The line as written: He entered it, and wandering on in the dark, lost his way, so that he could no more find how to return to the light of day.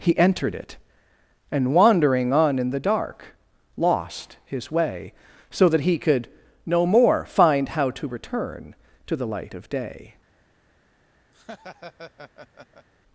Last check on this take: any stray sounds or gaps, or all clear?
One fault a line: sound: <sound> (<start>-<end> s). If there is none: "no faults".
sound: laugh (11.3-12.9 s)